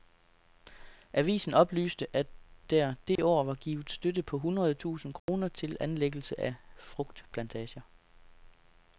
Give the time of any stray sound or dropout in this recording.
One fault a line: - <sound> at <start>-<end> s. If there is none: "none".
- dropout at 3.2-3.2 s
- dropout at 5.2-5.3 s